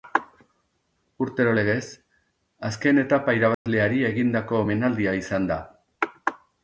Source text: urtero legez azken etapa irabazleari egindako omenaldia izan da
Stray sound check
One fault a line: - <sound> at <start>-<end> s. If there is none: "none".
- dropout at 3.5-3.7 s